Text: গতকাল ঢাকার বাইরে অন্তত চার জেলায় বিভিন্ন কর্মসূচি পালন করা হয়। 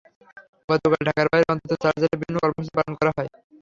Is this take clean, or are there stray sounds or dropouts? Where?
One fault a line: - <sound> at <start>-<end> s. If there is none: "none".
none